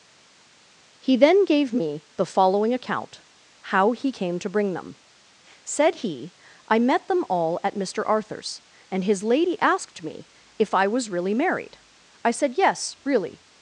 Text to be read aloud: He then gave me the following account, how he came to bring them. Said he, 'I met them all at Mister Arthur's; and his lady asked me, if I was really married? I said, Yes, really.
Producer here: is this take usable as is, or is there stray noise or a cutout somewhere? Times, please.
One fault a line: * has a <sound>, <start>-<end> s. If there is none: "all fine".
all fine